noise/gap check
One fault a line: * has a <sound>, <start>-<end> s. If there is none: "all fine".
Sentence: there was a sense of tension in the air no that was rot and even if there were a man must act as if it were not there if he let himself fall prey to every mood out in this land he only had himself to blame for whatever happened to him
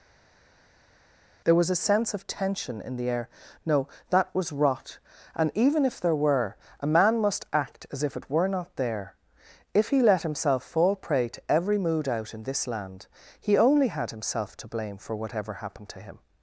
all fine